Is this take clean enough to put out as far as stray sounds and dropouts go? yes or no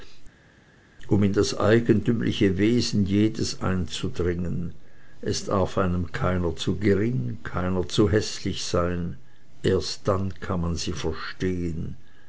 yes